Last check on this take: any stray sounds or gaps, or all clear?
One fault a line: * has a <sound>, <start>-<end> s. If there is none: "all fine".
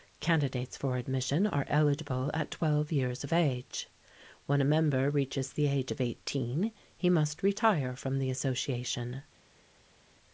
all fine